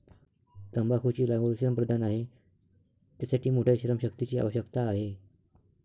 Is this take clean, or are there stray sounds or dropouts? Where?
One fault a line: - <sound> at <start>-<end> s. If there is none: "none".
none